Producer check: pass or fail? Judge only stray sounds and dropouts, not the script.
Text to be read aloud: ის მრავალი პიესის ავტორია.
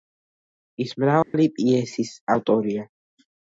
fail